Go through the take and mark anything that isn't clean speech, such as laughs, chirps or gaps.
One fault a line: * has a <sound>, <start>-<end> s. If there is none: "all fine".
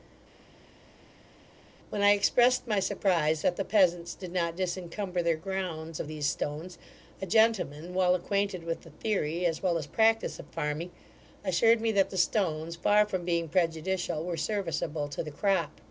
all fine